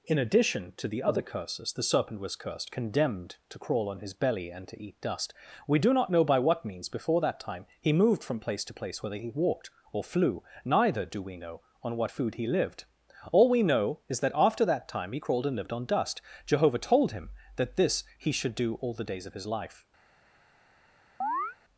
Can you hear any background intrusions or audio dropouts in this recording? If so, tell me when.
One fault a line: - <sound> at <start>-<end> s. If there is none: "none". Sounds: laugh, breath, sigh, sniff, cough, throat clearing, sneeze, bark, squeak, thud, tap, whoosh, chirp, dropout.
- chirp at 21.2-21.6 s